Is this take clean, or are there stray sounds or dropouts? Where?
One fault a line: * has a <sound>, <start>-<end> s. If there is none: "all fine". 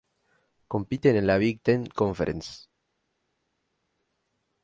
all fine